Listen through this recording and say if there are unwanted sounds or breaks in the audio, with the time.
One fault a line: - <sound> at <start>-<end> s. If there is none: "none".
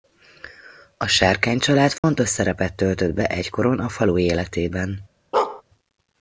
- dropout at 2.0-2.0 s
- bark at 5.3-5.6 s